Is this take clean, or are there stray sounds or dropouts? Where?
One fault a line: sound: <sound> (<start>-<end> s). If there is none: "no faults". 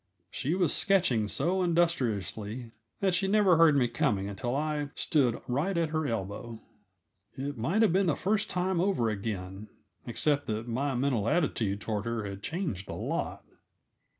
no faults